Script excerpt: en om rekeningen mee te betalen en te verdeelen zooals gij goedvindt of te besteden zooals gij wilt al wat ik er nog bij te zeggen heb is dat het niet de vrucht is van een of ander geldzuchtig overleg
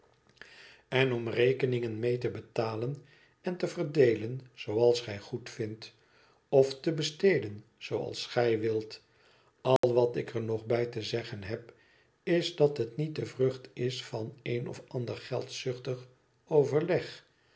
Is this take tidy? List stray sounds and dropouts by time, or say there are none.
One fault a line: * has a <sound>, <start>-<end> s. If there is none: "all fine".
* has a dropout, 9.8-9.8 s